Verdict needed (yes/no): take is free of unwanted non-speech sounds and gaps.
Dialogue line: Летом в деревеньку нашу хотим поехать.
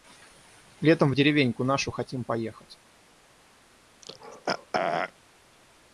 no